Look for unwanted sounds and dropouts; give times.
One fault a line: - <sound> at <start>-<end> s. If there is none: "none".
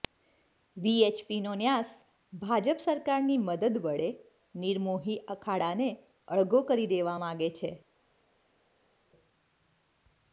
none